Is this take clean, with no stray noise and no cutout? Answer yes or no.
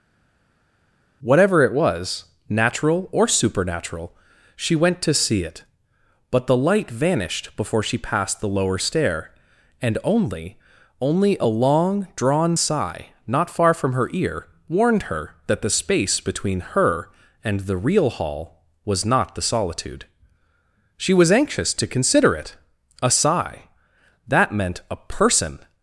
yes